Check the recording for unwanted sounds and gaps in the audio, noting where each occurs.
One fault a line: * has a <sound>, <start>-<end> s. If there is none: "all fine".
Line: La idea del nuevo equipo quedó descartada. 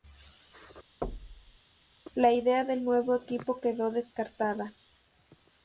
* has a thud, 1.0-1.6 s